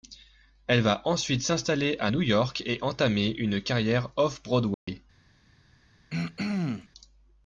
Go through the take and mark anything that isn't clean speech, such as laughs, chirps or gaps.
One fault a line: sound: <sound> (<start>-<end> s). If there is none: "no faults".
sound: dropout (4.7-4.9 s)
sound: throat clearing (6.1-6.9 s)